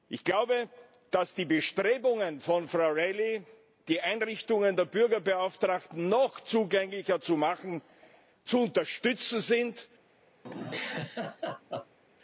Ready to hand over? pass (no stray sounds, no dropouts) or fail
fail